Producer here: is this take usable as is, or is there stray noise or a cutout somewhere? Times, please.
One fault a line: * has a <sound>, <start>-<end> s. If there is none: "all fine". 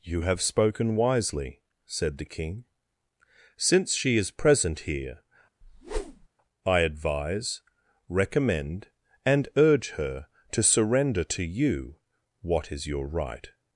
* has a whoosh, 5.6-6.3 s